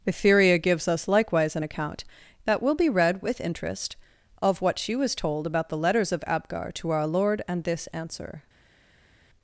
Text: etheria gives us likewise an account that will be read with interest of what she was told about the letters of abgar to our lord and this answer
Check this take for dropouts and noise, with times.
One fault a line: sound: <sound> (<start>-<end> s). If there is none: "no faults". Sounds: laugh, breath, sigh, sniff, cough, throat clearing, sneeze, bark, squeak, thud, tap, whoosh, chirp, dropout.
no faults